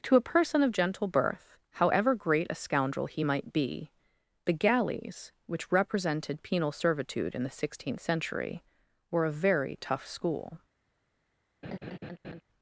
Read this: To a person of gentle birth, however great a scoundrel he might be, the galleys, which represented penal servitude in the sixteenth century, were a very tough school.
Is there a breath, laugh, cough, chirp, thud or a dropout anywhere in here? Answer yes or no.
yes